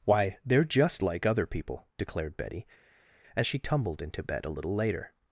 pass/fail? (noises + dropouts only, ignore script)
pass